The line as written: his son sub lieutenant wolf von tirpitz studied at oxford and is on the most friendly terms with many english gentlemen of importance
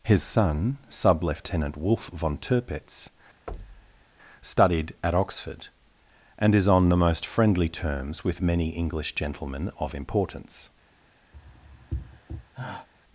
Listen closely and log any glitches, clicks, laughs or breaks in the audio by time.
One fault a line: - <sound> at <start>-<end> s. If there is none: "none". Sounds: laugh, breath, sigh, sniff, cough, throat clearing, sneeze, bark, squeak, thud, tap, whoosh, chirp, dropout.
- thud at 3.5-4.0 s
- sigh at 11.3-12.9 s